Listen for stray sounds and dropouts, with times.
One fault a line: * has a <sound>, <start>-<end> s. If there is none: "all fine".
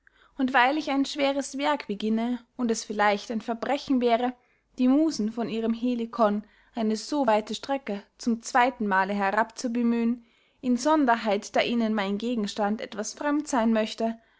all fine